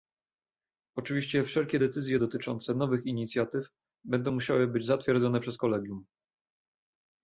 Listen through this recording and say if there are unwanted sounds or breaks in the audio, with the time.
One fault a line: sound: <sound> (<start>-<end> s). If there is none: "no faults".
no faults